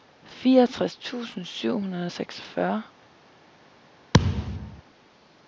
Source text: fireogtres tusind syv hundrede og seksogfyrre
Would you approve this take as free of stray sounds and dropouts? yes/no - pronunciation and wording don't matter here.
no